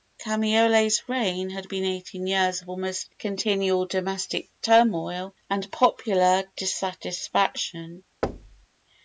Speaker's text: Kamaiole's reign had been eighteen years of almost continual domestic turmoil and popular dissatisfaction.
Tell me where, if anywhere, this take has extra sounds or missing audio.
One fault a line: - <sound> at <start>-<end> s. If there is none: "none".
- thud at 8.2-8.7 s